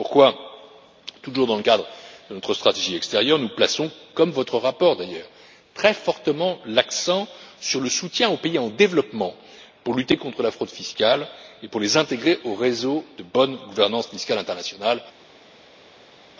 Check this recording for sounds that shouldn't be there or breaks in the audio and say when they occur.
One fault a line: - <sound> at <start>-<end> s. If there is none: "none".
none